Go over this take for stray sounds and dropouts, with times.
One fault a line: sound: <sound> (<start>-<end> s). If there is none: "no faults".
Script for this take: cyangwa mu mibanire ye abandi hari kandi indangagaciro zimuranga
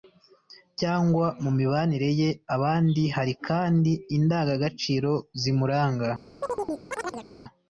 sound: chirp (6.4-7.3 s)